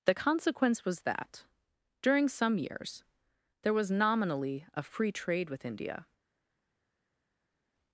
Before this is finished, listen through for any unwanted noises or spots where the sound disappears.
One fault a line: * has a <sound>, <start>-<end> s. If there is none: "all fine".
all fine